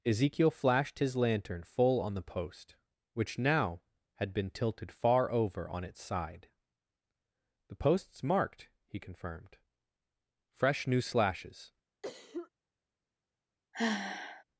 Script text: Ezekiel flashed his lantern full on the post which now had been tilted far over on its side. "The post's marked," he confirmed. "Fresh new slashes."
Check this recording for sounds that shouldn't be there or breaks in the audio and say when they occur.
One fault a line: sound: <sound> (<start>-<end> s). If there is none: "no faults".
sound: cough (12.0-12.5 s)
sound: sigh (13.7-14.4 s)